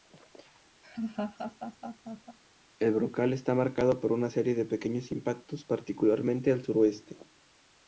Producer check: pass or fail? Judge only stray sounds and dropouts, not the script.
fail